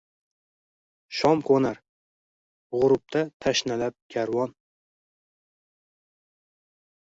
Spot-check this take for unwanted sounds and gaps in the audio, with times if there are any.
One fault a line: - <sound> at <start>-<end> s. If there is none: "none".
none